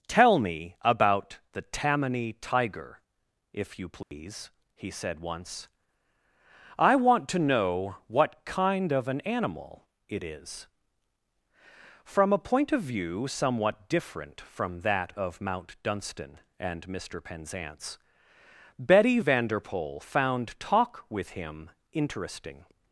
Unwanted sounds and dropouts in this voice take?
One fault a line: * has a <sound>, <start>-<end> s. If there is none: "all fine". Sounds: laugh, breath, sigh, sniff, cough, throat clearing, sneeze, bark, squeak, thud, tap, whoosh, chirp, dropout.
* has a dropout, 4.0-4.1 s